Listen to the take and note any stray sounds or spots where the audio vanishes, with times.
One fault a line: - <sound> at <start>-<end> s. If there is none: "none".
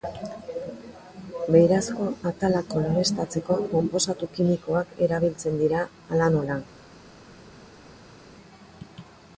none